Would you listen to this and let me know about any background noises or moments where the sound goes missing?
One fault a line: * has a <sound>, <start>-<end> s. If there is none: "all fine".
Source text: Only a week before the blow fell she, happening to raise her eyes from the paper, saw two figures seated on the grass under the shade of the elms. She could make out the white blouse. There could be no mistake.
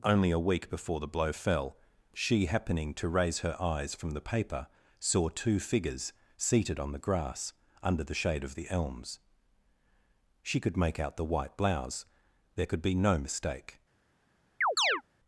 * has a chirp, 14.6-15.0 s